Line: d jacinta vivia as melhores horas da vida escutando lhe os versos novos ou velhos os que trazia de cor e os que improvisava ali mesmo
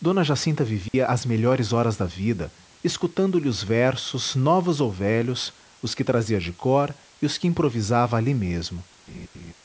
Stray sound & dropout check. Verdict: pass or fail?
fail